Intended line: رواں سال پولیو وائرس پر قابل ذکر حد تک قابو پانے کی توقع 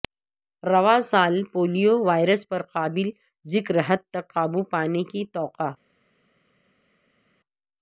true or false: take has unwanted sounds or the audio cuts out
false